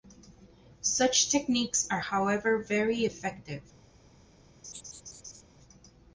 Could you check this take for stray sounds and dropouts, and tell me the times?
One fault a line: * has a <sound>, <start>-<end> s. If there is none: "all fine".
* has a laugh, 4.6-5.4 s